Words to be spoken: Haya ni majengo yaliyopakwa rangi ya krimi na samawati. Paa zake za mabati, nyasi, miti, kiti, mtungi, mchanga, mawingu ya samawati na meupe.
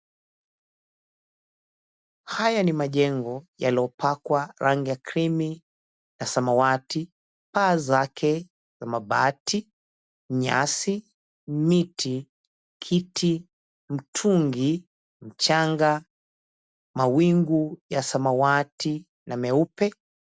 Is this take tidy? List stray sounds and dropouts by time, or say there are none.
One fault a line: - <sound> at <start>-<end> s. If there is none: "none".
none